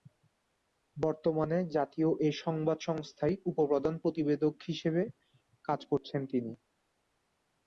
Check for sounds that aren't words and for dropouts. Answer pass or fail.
pass